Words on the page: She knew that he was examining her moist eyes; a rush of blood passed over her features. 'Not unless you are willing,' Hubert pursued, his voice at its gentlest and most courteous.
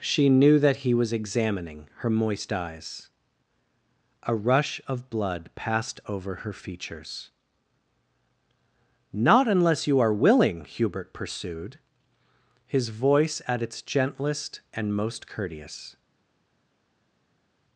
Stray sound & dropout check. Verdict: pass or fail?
pass